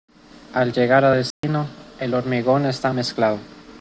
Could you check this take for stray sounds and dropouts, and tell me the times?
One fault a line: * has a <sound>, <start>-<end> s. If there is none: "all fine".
* has a dropout, 1.3-1.4 s